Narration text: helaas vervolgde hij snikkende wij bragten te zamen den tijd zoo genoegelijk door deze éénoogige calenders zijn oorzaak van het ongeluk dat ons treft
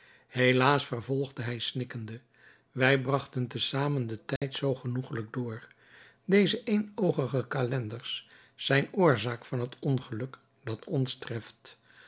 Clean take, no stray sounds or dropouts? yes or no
no